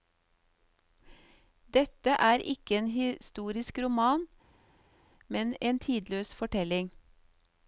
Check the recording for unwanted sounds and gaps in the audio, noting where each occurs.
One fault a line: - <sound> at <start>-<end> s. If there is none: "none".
none